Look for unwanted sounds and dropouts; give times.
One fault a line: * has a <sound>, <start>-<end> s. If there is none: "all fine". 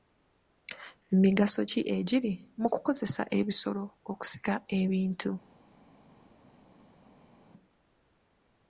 all fine